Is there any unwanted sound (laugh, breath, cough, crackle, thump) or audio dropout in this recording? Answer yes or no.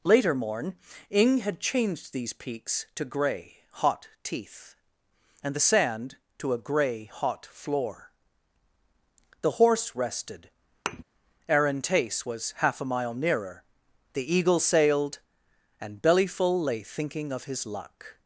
yes